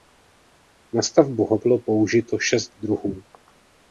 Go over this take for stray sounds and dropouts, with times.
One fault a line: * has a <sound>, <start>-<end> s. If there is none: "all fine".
all fine